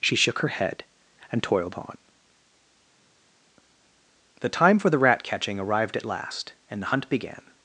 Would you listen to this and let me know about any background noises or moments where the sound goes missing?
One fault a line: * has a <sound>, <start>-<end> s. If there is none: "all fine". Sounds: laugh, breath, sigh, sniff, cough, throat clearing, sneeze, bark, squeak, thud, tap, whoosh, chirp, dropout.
all fine